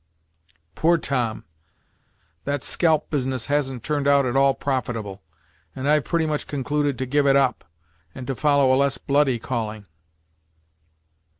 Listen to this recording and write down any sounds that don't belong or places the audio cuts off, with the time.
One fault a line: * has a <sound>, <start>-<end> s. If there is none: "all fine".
all fine